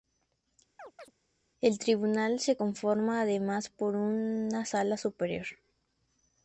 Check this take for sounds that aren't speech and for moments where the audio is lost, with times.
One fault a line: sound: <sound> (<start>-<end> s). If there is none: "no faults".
sound: chirp (0.8-1.1 s)